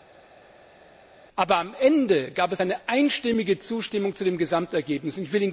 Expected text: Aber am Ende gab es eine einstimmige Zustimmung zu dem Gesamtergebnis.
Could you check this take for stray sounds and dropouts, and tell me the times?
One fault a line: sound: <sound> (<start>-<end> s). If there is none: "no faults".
no faults